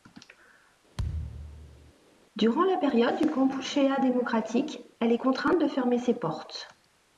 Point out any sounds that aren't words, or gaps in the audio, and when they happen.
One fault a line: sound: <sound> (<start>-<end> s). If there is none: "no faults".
sound: thud (1.0-1.9 s)